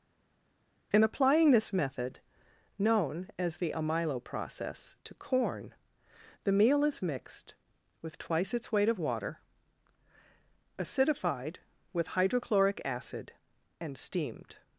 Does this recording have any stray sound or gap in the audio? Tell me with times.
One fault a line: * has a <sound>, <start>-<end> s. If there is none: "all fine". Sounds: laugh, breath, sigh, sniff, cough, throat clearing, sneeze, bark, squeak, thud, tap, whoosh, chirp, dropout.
all fine